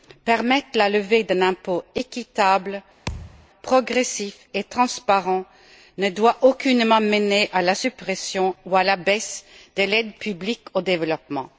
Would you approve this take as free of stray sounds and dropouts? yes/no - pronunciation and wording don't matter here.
no